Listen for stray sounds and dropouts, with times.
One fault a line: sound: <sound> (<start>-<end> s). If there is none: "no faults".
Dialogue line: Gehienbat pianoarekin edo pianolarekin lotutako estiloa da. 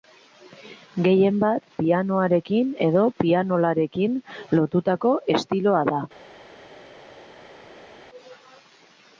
no faults